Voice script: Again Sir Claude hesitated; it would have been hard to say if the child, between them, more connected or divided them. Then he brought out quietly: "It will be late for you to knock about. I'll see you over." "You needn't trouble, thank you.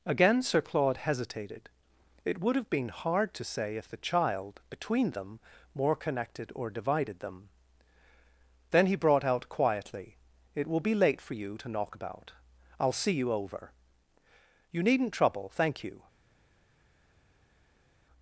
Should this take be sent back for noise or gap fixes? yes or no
no